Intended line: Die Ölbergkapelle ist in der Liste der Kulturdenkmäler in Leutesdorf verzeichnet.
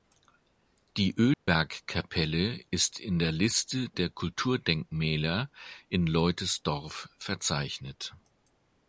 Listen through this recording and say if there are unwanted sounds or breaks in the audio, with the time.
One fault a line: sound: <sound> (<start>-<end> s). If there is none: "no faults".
sound: dropout (1.3-1.5 s)